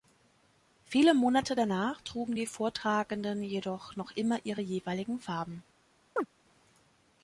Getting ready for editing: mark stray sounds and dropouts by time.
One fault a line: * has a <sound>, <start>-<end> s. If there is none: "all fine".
* has a chirp, 6.2-6.3 s